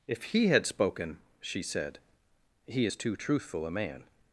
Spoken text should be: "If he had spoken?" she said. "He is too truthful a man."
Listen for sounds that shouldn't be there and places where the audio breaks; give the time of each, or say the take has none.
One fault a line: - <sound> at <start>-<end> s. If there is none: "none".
none